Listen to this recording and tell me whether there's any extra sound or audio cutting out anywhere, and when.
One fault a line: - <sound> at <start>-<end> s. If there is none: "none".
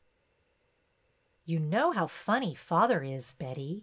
none